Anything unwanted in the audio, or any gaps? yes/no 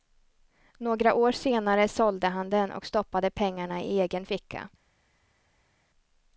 no